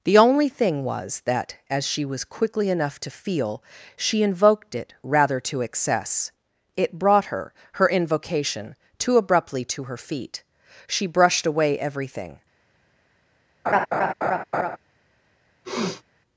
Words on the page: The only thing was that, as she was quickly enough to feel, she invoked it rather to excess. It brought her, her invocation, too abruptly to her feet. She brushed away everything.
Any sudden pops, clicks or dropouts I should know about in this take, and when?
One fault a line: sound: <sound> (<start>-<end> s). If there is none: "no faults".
sound: laugh (13.7-14.8 s)
sound: sniff (15.6-16.0 s)